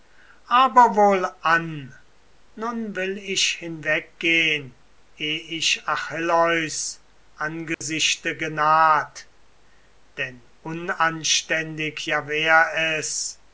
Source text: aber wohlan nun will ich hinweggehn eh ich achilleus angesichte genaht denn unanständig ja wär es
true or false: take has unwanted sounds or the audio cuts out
true